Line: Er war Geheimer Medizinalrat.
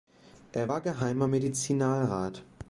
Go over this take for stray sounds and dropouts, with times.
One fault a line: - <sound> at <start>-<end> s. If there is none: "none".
none